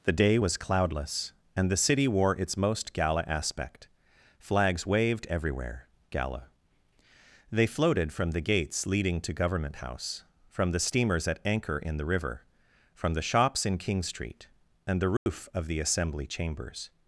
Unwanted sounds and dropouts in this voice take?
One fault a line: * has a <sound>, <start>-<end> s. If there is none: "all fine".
* has a dropout, 15.2-15.3 s